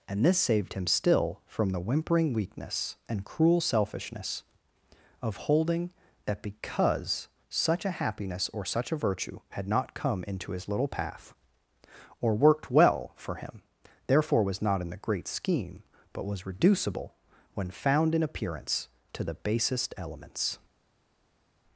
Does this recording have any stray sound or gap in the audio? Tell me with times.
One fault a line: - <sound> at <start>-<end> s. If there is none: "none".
none